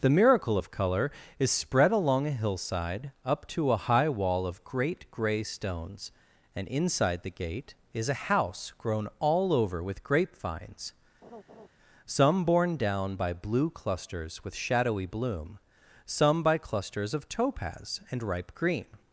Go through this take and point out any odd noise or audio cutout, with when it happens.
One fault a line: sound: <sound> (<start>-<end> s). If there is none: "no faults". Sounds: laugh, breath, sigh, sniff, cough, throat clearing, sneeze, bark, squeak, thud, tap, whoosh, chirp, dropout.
sound: laugh (11.2-11.7 s)